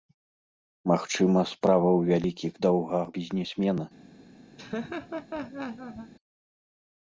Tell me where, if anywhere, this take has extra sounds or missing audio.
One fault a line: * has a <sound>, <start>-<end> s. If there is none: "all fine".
* has a laugh, 4.6-6.1 s